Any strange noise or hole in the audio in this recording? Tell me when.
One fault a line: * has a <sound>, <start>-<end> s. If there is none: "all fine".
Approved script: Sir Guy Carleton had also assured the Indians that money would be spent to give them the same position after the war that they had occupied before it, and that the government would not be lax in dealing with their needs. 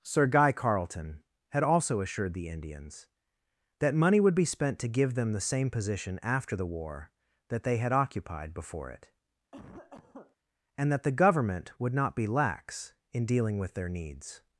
* has a cough, 9.5-10.4 s